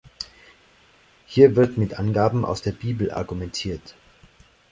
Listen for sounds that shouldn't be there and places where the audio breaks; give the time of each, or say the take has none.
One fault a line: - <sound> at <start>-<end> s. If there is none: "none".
none